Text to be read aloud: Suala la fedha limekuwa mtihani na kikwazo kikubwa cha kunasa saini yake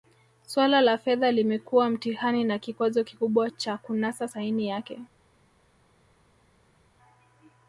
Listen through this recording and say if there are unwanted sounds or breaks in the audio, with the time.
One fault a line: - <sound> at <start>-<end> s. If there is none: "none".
none